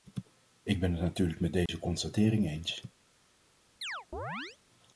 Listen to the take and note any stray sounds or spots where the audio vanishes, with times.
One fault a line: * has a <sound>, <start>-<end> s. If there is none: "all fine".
* has a dropout, 1.7-1.7 s
* has a chirp, 3.8-4.6 s